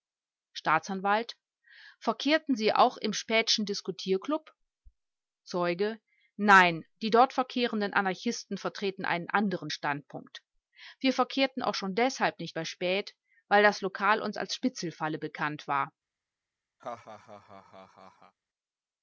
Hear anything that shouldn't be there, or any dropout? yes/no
yes